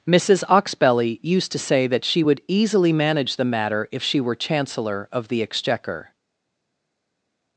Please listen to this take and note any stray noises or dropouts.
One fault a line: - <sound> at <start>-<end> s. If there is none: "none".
none